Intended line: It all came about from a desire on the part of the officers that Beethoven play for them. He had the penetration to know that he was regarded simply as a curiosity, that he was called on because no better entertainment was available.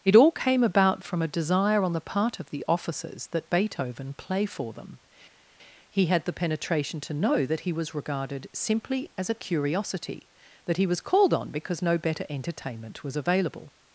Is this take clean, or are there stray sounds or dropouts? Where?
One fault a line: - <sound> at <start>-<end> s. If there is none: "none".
none